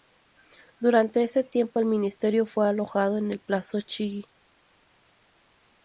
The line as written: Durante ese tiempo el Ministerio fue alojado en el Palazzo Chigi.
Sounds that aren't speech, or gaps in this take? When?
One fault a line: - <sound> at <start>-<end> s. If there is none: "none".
none